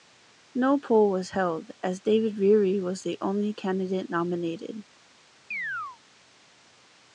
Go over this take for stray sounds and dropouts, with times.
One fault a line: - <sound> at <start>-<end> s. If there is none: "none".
- chirp at 5.5-6.0 s